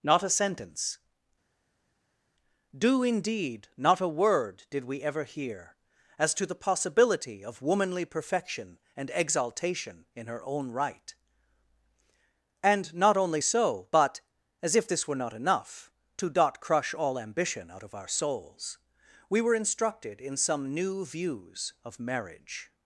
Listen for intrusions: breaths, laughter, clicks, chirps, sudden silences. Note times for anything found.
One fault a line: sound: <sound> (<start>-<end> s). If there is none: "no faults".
no faults